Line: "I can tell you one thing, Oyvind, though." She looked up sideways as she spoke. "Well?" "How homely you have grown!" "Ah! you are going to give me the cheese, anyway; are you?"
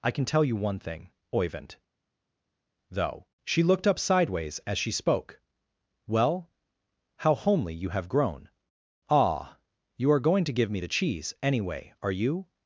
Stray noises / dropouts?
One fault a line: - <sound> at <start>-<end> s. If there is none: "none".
none